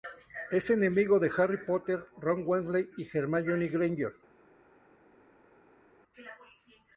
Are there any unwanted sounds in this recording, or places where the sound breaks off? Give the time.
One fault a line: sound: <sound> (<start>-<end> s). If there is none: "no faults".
no faults